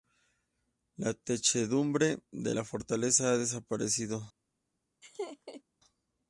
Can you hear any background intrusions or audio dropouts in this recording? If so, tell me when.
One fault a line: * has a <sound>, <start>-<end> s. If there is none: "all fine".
* has a laugh, 5.0-5.6 s